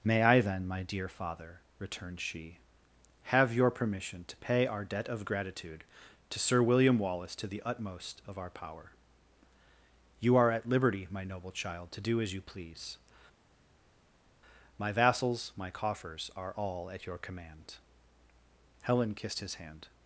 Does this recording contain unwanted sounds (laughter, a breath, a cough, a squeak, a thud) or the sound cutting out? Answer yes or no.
no